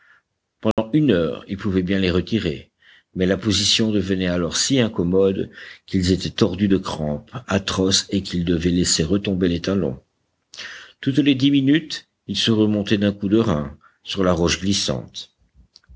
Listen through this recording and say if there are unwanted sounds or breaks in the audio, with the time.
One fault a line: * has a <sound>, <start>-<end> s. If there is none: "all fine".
* has a dropout, 0.7-0.8 s